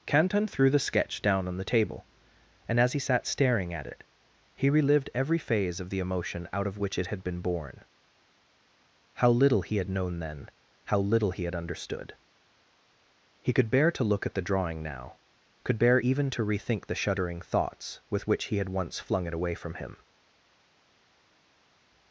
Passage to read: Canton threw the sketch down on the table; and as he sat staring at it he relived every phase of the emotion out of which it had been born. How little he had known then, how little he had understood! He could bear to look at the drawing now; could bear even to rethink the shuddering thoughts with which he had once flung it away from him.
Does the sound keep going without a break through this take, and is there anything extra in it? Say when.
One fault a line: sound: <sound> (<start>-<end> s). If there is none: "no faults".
no faults